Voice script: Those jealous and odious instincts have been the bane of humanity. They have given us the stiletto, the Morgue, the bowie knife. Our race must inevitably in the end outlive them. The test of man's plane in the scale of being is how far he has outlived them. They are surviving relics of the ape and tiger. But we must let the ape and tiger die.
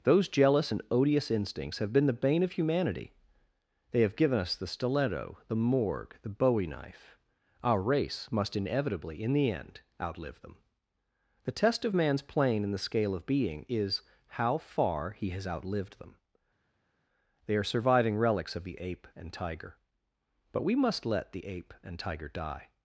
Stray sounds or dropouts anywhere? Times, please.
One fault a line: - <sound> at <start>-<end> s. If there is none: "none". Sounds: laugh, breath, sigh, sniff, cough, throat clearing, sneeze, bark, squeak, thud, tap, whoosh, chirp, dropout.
none